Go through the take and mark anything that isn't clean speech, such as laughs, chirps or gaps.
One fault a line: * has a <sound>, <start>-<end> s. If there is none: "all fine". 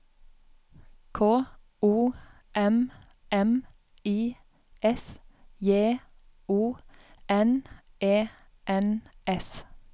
all fine